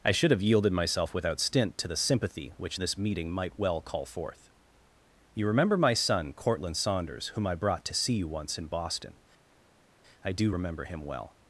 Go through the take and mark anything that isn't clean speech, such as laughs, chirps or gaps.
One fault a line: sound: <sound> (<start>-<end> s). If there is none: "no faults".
no faults